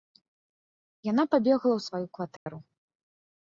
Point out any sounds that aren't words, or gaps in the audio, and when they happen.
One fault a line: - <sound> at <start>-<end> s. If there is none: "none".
- dropout at 2.4-2.5 s